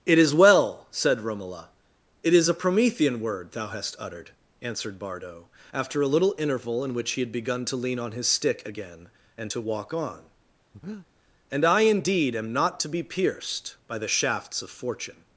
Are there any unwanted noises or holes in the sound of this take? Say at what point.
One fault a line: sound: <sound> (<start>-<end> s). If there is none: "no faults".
sound: breath (10.7-11.1 s)